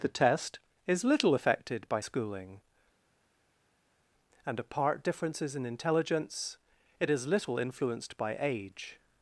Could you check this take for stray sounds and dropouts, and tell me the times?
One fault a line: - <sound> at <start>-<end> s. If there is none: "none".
none